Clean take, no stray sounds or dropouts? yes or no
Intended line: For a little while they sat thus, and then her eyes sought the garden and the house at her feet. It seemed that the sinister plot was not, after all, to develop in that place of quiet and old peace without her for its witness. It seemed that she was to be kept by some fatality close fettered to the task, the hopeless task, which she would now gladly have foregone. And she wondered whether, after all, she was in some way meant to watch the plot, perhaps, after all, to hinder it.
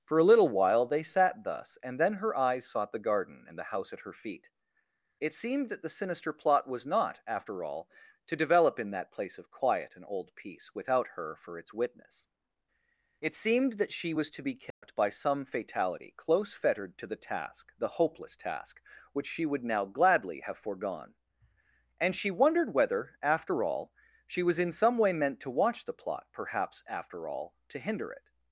no